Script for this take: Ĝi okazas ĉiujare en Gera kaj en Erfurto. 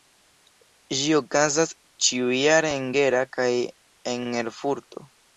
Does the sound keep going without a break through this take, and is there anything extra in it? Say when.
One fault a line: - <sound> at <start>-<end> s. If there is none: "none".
none